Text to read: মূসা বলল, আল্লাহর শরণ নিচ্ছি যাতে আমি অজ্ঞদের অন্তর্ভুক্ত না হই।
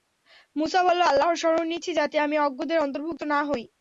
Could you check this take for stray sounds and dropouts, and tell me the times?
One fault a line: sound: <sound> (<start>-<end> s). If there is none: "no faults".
no faults